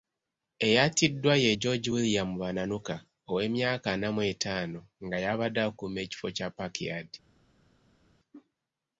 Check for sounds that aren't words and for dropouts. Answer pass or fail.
pass